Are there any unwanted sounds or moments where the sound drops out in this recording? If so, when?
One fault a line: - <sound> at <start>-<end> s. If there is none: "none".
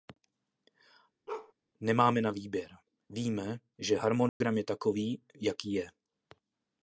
- bark at 1.3-1.5 s
- dropout at 4.3-4.4 s